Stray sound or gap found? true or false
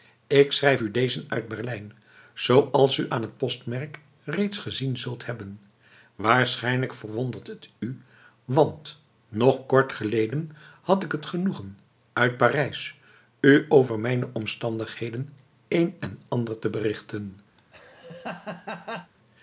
true